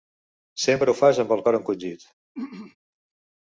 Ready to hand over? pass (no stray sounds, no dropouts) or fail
fail